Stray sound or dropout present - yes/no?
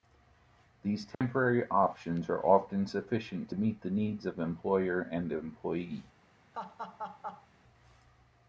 yes